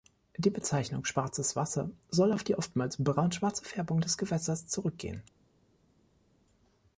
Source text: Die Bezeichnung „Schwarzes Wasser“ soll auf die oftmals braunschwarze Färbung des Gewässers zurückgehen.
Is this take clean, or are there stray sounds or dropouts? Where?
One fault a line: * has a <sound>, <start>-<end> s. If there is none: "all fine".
all fine